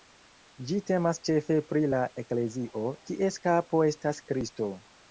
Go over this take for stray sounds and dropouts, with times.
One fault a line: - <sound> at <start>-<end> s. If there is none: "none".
none